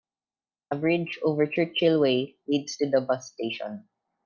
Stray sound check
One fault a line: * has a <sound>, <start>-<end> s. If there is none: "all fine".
all fine